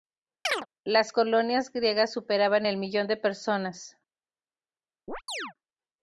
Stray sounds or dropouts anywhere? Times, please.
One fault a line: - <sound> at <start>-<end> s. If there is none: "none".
- chirp at 0.4-0.7 s
- chirp at 5.1-5.5 s